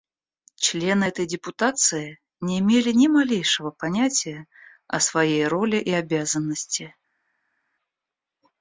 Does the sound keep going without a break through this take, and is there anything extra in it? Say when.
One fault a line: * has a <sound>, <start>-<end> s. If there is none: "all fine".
all fine